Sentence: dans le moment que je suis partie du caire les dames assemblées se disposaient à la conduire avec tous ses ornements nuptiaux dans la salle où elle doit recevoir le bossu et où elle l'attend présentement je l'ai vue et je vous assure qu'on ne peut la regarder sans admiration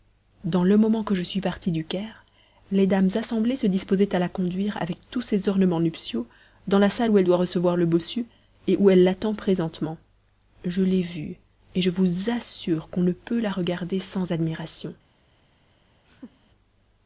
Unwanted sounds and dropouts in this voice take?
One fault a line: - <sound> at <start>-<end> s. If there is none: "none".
- laugh at 16.1-16.5 s